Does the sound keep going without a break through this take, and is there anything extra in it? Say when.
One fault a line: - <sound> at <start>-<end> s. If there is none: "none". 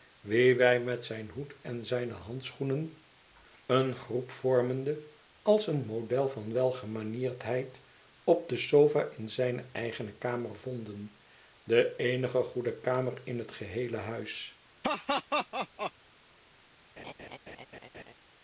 - laugh at 14.8-15.9 s
- laugh at 17.0-18.1 s